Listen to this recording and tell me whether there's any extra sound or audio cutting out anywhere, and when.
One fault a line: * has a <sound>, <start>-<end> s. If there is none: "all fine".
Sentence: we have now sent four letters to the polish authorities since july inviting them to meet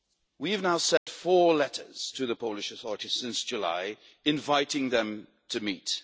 * has a dropout, 1.0-1.1 s